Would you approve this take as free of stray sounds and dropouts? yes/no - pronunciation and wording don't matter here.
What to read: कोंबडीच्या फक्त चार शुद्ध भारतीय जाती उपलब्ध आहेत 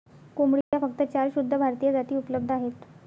no